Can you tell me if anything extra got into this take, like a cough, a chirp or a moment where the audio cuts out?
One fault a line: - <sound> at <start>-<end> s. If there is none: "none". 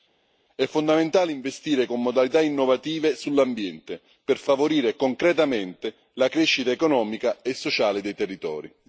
none